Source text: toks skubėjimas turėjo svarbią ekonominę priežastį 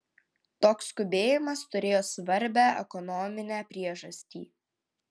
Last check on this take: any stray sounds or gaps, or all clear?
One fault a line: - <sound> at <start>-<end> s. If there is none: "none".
none